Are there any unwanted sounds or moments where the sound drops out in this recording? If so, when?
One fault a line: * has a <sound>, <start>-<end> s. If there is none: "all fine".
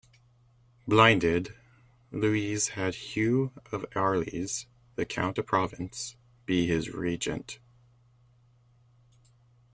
all fine